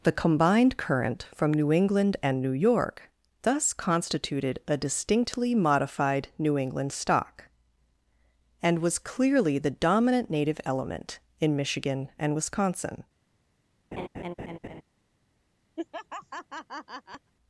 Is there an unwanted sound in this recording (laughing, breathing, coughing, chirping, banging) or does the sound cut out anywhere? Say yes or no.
yes